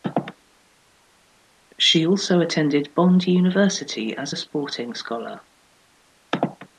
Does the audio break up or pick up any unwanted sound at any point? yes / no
no